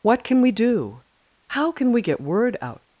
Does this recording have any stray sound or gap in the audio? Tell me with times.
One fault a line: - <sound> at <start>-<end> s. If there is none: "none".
none